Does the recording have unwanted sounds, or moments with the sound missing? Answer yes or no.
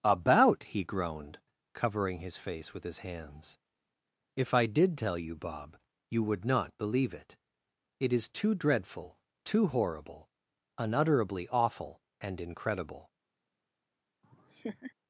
yes